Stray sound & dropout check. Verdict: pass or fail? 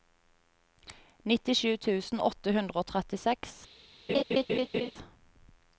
fail